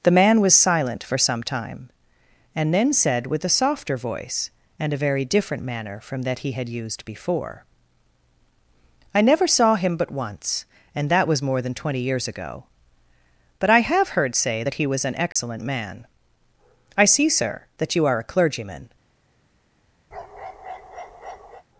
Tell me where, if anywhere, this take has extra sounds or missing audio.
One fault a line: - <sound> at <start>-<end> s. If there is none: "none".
- dropout at 15.3-15.4 s
- bark at 20.1-21.6 s